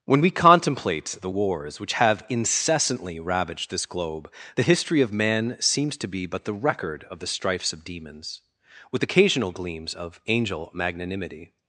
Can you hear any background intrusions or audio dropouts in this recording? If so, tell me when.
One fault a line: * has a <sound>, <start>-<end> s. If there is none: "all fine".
all fine